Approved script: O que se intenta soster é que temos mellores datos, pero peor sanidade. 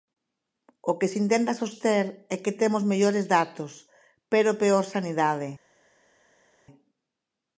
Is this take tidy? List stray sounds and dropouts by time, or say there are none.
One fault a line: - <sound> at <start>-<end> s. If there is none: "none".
none